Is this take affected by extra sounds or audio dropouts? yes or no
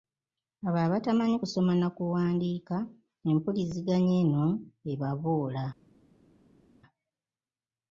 no